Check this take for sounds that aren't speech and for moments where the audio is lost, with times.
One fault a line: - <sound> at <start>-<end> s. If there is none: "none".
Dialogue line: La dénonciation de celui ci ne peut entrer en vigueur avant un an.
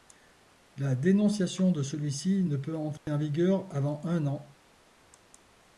- dropout at 3.0-3.1 s